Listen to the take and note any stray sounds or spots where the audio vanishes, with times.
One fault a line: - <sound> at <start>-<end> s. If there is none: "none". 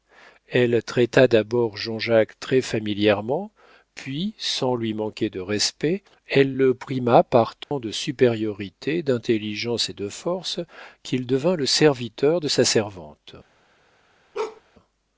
- dropout at 7.6-7.7 s
- bark at 14.3-14.6 s